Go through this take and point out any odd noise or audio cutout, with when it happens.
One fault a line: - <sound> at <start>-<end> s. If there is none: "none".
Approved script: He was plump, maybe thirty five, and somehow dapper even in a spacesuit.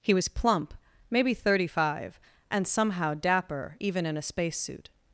none